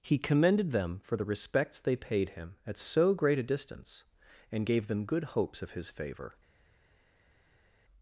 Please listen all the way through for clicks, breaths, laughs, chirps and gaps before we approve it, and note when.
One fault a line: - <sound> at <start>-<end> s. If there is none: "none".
none